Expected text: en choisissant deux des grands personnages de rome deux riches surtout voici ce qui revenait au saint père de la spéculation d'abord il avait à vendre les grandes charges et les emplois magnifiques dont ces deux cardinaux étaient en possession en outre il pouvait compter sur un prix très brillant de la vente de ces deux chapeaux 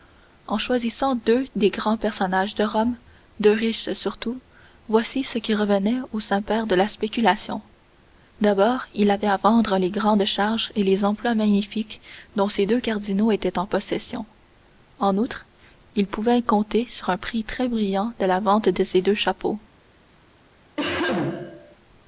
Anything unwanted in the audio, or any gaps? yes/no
yes